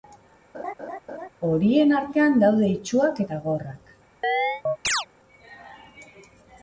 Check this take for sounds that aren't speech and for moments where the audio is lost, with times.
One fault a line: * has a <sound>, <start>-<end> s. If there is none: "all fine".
* has a laugh, 0.5-1.3 s
* has a chirp, 4.2-5.1 s